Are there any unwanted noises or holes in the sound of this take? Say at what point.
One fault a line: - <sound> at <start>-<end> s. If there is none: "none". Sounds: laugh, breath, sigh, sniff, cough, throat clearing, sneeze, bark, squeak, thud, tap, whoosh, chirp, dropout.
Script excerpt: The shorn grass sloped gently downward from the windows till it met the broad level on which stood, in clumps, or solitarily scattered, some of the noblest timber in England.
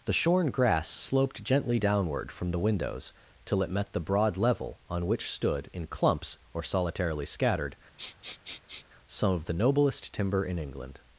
- sniff at 8.0-8.9 s